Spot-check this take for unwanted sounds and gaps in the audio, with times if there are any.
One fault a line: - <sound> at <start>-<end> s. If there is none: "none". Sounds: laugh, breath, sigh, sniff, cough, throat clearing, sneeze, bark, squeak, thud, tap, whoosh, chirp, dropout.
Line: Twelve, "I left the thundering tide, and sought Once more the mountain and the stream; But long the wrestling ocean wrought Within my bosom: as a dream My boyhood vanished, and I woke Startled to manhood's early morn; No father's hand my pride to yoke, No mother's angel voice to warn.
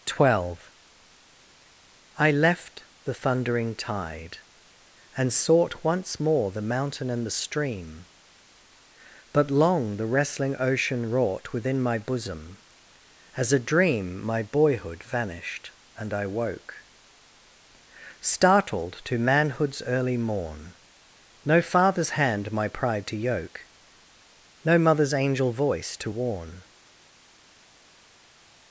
none